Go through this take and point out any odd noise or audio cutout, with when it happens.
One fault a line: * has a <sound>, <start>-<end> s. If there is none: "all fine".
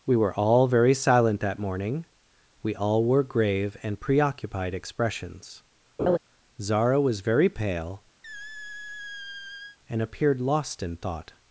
* has a laugh, 6.0-6.2 s
* has a squeak, 8.2-9.8 s